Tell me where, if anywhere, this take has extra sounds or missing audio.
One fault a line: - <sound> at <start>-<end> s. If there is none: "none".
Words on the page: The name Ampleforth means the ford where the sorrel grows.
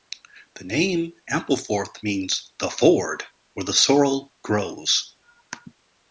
none